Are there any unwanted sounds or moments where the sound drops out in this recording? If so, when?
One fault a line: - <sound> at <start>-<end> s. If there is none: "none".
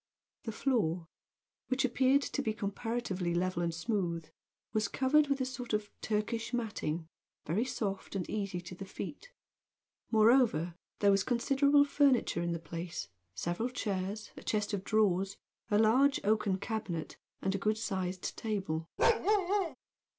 - bark at 19.0-19.8 s